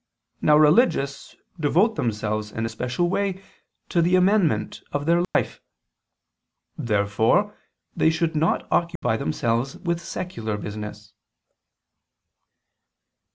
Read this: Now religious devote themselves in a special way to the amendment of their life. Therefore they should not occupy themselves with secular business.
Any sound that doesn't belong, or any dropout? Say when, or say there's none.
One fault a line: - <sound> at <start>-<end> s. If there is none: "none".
- dropout at 5.2-5.3 s
- dropout at 9.0-9.0 s